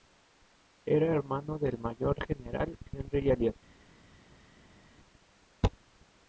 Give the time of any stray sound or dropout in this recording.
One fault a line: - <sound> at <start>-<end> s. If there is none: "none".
none